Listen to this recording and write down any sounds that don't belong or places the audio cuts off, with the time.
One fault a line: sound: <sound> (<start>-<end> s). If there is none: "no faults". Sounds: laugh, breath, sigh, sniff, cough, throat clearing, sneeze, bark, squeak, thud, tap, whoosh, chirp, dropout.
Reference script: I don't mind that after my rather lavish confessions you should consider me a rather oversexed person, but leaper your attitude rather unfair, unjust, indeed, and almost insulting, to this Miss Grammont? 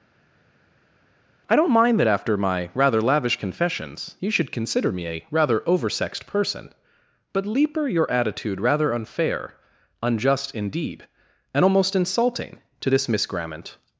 no faults